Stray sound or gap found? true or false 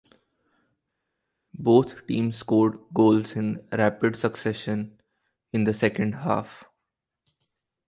false